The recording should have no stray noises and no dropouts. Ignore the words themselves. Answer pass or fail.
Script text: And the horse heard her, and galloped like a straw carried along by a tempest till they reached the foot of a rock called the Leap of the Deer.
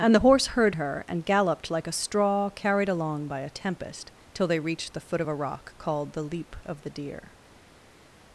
pass